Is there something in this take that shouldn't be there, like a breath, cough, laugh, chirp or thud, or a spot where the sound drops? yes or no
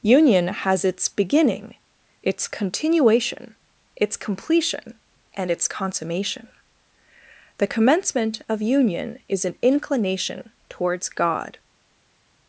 no